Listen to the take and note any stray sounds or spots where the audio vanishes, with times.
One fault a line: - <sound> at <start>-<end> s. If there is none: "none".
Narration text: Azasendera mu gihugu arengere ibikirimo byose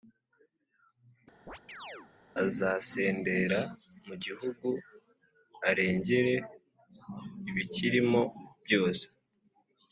- chirp at 1.5-2.1 s